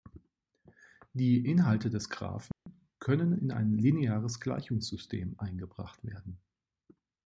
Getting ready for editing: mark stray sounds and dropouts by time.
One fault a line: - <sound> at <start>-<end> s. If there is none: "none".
- dropout at 2.5-2.7 s